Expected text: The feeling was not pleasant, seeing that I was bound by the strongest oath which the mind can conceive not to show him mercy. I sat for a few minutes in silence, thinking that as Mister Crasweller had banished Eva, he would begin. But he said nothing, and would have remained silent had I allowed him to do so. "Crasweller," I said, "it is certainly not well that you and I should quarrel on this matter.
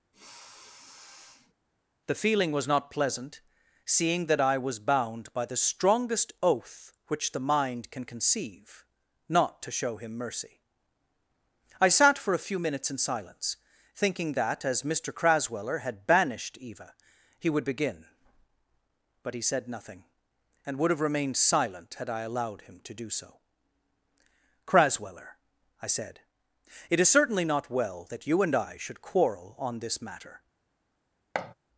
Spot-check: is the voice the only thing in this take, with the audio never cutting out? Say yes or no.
no